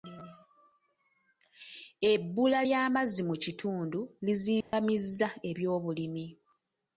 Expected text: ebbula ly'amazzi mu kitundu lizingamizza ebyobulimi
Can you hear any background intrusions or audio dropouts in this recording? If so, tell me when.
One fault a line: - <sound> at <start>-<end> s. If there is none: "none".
- dropout at 4.6-4.7 s